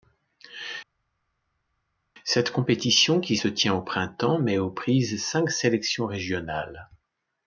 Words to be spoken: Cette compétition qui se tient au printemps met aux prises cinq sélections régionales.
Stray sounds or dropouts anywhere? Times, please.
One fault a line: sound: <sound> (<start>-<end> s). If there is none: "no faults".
no faults